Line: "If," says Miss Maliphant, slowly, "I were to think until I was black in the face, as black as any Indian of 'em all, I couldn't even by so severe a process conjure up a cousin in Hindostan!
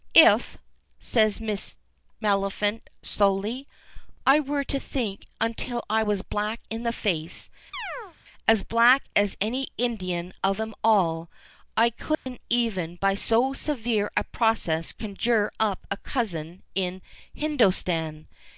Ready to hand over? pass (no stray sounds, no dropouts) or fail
fail